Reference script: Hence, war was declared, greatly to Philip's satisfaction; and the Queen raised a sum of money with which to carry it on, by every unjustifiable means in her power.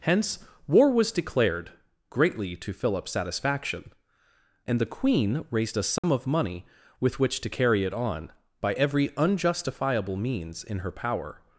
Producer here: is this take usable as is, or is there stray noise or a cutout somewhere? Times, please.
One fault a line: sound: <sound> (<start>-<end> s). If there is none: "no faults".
sound: dropout (6.0-6.0 s)